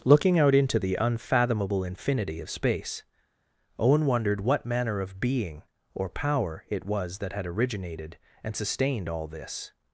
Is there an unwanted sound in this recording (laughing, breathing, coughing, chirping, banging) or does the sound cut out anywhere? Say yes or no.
no